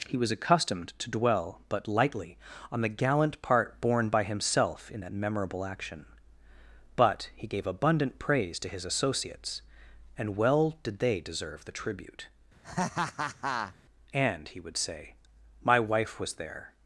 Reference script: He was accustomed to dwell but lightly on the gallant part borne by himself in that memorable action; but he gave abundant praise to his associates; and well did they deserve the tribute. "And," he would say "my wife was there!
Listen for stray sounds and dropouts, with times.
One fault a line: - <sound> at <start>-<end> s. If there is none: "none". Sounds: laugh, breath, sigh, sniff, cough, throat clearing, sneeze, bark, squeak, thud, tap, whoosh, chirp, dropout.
- laugh at 12.6-13.8 s